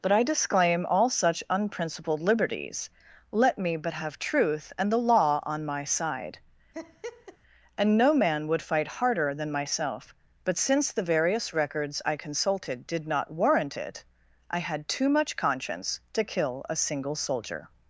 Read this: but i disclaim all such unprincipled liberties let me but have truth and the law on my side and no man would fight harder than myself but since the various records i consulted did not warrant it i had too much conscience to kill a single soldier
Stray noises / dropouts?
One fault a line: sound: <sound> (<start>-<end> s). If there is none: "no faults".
sound: laugh (6.7-7.4 s)